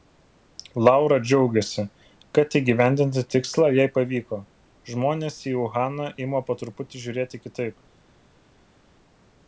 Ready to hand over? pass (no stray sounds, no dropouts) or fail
pass